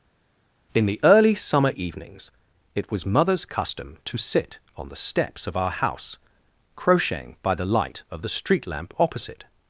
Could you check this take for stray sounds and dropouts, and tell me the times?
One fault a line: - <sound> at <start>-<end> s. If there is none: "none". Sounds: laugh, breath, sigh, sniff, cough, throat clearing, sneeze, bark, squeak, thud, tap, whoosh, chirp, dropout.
none